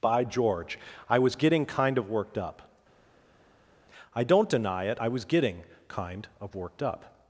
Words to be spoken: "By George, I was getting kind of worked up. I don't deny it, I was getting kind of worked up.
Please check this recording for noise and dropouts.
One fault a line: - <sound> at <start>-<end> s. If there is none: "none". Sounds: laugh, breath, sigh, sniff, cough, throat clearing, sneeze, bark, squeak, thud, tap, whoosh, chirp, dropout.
none